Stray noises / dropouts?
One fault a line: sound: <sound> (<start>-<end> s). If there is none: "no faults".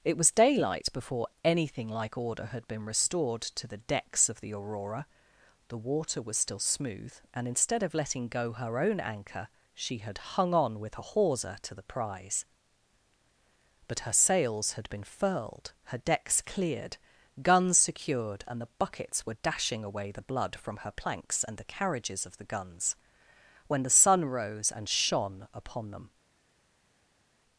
no faults